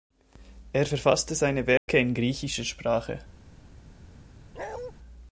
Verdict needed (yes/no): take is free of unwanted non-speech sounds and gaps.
no